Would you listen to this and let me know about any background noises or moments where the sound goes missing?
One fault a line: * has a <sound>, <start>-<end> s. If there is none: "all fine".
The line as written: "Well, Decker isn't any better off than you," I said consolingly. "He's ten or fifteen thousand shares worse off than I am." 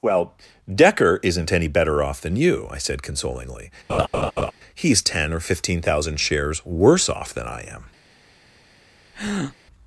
* has a laugh, 3.9-4.5 s
* has a breath, 9.1-9.6 s